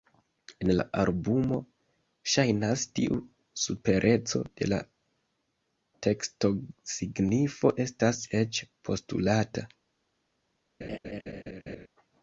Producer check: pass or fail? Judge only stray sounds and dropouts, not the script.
fail